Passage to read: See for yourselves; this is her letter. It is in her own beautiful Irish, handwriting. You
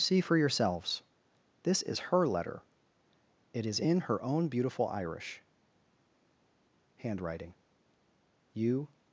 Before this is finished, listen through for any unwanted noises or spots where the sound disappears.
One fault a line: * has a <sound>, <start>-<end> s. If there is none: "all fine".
all fine